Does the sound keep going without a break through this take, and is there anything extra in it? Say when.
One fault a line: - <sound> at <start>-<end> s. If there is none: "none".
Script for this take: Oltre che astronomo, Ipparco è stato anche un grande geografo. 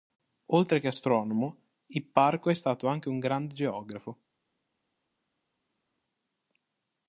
none